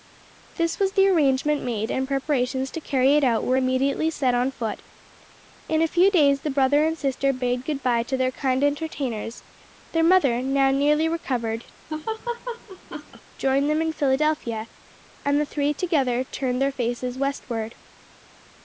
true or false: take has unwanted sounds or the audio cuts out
true